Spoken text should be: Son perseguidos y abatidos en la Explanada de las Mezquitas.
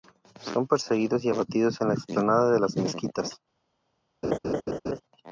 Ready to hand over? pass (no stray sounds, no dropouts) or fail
fail